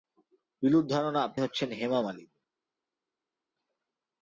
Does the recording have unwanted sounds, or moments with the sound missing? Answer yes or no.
no